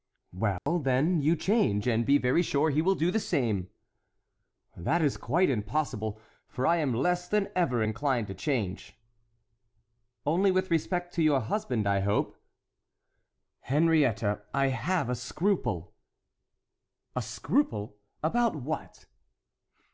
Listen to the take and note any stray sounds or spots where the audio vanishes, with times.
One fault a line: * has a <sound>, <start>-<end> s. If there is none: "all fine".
* has a dropout, 0.6-0.7 s